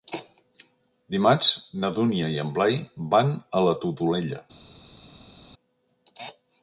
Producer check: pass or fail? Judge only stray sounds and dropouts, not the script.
pass